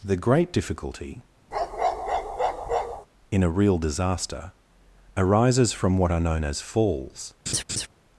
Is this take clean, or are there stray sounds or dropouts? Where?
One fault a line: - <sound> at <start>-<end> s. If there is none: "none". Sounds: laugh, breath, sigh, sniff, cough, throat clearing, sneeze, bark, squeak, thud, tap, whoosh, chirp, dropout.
- bark at 1.5-3.1 s
- laugh at 7.5-7.9 s